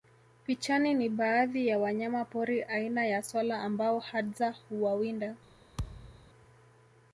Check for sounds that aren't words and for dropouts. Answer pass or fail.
fail